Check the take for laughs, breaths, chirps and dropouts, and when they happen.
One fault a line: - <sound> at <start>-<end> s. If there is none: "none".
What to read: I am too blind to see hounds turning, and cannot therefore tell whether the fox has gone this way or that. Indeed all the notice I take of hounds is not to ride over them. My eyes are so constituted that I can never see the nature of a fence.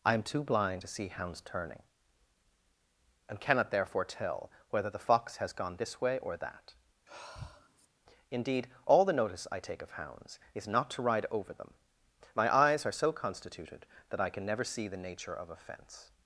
- sigh at 7.1-7.9 s